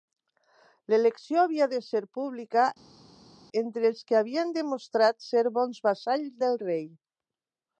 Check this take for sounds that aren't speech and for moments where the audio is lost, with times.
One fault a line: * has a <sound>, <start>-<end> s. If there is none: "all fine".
all fine